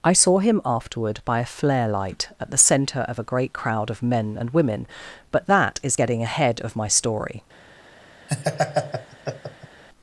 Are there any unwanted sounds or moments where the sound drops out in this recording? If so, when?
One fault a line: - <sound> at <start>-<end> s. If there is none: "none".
- laugh at 8.3-9.8 s